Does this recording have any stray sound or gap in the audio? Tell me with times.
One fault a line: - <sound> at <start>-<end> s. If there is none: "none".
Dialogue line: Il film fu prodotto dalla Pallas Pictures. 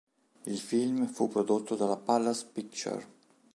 none